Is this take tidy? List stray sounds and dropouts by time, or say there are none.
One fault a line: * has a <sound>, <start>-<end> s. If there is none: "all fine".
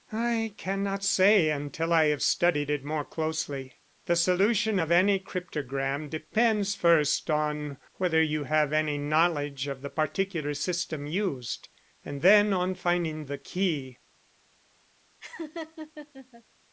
* has a laugh, 15.2-16.4 s